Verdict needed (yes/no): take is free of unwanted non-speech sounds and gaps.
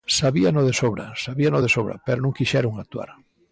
yes